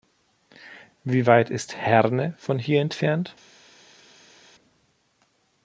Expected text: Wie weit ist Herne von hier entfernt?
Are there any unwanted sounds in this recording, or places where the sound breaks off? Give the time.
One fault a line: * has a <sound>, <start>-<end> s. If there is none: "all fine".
all fine